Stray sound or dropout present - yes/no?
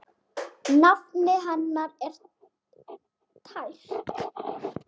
no